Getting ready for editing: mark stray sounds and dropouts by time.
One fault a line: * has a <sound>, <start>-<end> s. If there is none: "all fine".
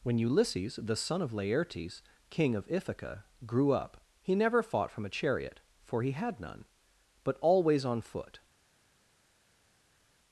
all fine